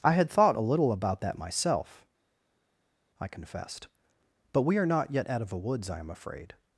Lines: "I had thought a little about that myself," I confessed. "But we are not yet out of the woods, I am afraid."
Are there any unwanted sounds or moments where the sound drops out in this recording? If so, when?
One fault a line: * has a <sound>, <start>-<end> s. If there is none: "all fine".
all fine